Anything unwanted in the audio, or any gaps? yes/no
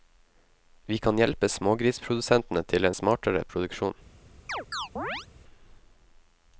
yes